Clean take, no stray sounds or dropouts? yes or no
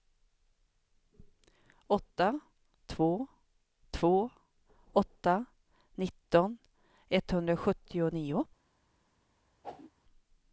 no